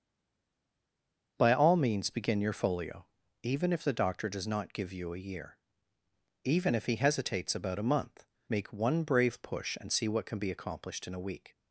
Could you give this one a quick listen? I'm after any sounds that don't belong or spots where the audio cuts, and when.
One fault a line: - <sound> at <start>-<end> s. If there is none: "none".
none